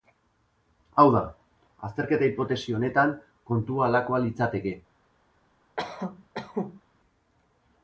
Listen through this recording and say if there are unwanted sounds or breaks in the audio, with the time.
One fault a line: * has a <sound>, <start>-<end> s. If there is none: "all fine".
* has a cough, 5.8-6.8 s